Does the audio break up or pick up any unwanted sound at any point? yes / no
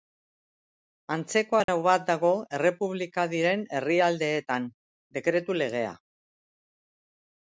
yes